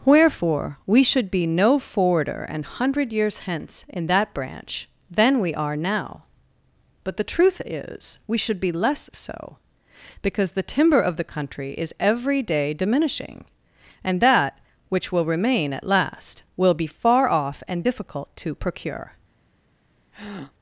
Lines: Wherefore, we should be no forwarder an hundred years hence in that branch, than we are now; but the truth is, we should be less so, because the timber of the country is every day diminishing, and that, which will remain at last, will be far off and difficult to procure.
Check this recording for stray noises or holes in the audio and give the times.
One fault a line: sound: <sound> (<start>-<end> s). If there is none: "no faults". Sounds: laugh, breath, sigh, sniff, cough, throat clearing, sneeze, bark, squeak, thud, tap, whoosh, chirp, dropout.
sound: breath (20.1-20.5 s)